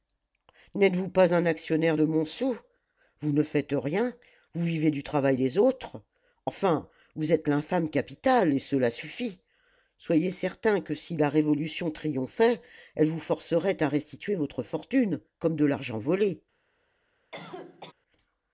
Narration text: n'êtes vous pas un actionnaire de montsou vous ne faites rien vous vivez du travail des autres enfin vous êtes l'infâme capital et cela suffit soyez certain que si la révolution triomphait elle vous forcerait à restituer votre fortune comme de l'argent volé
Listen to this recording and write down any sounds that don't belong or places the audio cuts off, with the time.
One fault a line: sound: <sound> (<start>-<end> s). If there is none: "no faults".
sound: cough (17.3-17.9 s)